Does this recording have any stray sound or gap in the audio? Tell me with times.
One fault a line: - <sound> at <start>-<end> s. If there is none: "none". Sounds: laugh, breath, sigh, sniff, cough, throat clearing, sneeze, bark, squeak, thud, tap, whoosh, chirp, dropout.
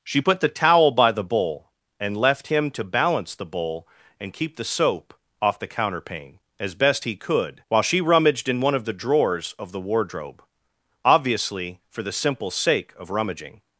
none